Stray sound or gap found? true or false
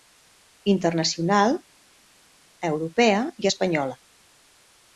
false